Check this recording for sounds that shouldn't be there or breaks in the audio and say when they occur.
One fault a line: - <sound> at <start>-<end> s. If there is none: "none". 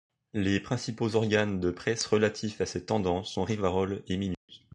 - dropout at 4.3-4.5 s